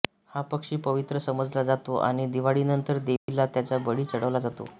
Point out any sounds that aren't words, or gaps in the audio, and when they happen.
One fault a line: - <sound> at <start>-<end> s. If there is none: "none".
- dropout at 3.2-3.3 s